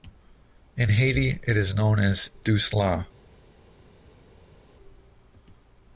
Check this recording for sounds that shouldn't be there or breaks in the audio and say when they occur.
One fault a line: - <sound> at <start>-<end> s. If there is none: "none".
none